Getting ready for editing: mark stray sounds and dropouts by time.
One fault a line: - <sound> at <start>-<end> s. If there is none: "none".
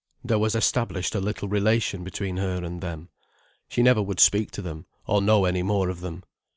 none